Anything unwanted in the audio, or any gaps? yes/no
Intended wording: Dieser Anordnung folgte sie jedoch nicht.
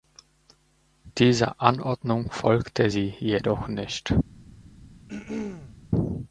yes